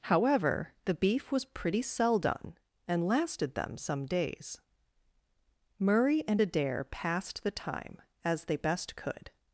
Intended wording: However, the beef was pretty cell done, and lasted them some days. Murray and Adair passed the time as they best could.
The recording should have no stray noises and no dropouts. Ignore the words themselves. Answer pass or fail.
pass